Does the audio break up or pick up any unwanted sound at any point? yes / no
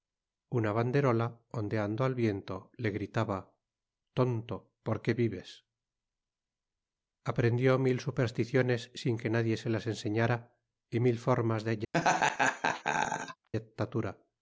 yes